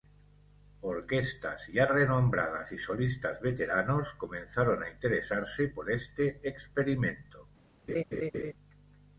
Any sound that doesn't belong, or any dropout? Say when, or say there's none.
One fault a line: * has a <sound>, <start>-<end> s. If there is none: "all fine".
* has a laugh, 7.9-8.5 s